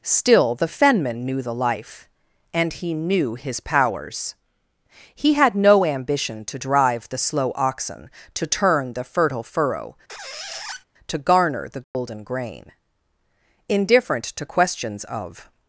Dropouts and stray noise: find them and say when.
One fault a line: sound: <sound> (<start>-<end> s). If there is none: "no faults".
sound: squeak (10.1-10.8 s)
sound: dropout (11.8-11.9 s)